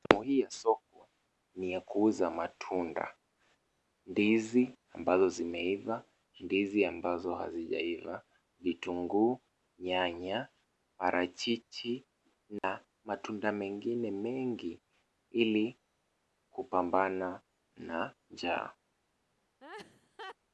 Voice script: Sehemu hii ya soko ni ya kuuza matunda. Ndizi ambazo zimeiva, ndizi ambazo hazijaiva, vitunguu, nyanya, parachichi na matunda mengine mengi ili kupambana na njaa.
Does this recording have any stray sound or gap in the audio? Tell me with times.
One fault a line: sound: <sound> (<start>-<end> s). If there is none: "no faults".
sound: dropout (12.6-12.6 s)
sound: laugh (19.6-20.4 s)